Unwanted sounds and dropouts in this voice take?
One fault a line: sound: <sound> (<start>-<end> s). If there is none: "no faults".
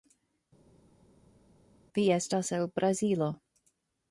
no faults